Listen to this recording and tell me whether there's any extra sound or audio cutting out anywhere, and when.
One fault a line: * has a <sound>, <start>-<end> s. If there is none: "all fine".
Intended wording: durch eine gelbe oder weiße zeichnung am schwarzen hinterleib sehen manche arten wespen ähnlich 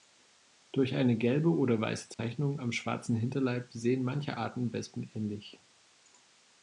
* has a dropout, 2.1-2.2 s